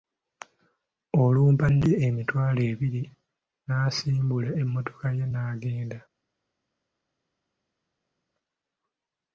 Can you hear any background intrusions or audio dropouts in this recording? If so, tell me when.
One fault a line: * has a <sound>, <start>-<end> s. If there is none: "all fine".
all fine